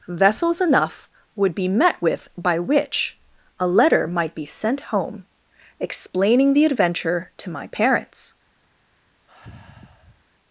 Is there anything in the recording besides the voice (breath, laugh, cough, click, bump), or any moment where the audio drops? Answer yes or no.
yes